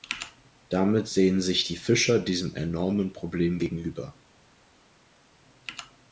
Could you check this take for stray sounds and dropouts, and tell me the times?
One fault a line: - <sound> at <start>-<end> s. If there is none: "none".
none